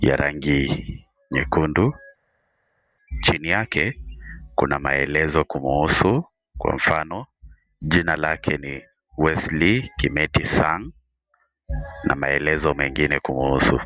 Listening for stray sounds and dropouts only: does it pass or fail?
pass